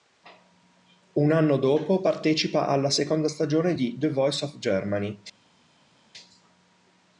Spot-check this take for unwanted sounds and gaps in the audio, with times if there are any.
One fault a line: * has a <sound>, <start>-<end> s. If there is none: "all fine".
all fine